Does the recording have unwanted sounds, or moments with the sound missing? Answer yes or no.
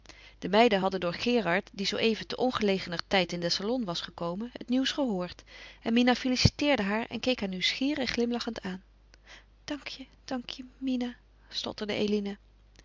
yes